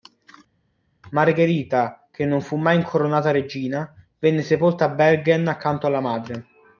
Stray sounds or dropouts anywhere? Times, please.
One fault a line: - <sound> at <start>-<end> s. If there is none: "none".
none